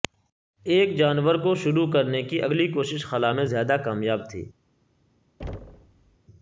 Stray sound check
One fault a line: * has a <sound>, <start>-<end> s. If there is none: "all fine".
* has a thud, 5.4-6.2 s